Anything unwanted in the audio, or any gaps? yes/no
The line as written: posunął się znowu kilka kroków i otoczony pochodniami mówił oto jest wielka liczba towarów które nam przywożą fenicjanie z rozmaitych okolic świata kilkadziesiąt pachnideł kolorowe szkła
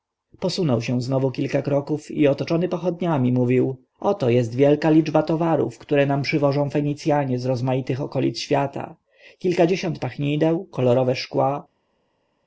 no